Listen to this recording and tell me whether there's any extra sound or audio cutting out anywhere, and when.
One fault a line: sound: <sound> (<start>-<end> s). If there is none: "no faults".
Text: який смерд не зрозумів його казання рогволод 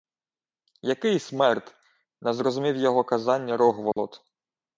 sound: dropout (3.9-4.0 s)